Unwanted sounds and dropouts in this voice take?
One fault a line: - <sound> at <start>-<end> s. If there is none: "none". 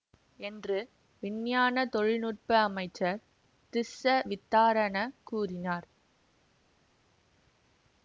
none